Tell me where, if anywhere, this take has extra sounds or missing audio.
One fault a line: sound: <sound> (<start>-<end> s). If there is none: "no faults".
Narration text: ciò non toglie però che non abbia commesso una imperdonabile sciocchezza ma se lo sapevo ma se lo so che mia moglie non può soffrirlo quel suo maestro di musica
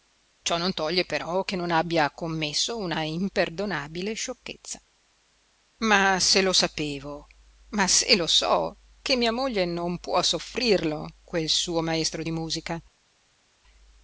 no faults